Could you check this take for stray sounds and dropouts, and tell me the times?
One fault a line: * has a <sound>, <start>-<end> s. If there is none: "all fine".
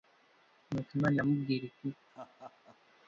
* has a laugh, 2.1-2.8 s